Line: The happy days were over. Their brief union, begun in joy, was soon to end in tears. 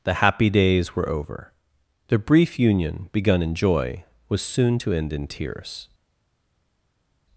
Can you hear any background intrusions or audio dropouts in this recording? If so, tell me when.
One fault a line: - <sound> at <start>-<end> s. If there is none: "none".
none